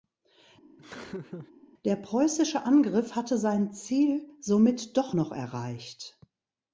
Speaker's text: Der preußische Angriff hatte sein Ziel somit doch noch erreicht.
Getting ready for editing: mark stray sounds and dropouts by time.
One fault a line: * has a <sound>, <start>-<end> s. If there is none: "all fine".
* has a laugh, 0.8-1.5 s